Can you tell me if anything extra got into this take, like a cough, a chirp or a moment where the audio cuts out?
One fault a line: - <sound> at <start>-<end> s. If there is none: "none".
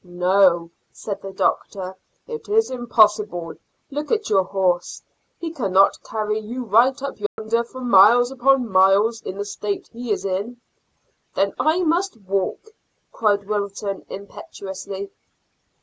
- dropout at 7.3-7.4 s